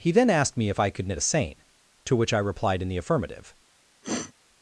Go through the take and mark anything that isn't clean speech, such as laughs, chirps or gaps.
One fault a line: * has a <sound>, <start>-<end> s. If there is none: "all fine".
* has a sniff, 4.0-4.3 s